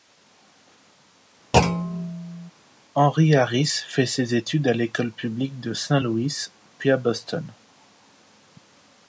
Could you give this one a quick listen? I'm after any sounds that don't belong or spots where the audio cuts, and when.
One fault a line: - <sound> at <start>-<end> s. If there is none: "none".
- thud at 1.5-2.5 s